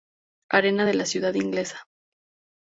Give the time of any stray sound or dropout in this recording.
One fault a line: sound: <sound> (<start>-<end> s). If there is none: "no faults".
no faults